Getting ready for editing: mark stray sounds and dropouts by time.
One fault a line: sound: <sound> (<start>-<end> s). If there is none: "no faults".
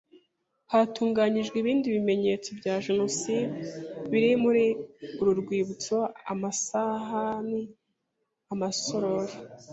no faults